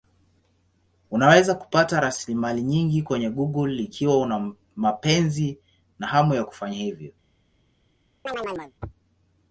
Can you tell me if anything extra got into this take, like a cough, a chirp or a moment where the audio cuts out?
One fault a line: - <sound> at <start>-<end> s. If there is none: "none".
- chirp at 8.3-8.7 s